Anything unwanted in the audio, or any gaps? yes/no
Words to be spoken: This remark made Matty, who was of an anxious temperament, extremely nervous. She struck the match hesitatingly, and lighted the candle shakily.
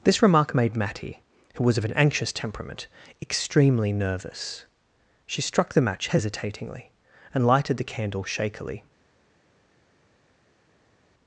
no